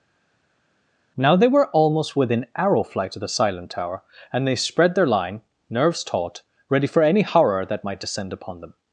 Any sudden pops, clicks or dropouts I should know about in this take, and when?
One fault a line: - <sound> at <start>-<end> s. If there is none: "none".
none